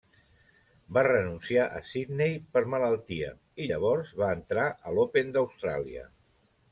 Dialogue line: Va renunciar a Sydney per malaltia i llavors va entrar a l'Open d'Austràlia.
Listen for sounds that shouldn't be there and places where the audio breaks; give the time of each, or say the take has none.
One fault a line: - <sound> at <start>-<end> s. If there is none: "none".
none